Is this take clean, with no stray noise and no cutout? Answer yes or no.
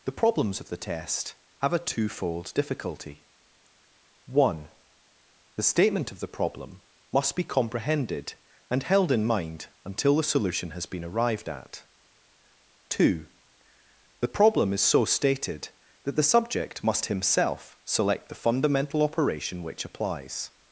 yes